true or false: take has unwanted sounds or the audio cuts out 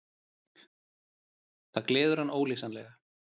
false